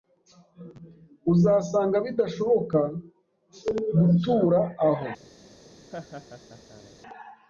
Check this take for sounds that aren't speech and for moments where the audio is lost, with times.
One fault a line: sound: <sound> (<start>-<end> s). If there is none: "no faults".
sound: laugh (5.9-7.0 s)